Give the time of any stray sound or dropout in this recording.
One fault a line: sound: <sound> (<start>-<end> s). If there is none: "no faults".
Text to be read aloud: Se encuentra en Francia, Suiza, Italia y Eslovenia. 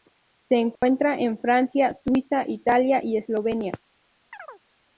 sound: dropout (0.8-0.8 s)
sound: chirp (4.3-4.6 s)